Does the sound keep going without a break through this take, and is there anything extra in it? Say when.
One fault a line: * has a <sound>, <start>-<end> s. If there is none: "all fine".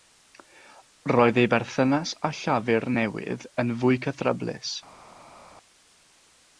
all fine